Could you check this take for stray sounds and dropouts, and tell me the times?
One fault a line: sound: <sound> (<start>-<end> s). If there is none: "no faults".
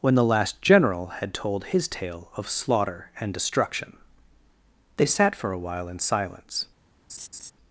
sound: laugh (7.1-7.5 s)